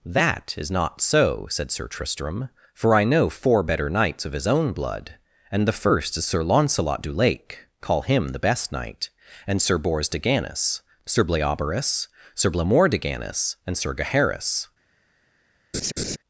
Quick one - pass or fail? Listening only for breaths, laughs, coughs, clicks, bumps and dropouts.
fail